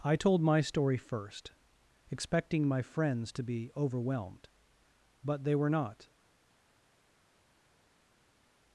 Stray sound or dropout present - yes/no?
no